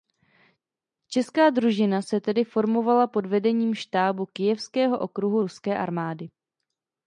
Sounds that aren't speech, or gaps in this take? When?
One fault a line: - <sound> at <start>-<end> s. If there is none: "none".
none